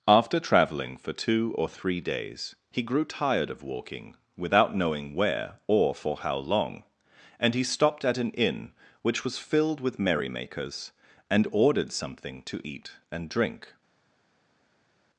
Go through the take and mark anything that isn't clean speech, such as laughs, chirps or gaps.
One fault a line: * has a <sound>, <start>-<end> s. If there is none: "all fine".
all fine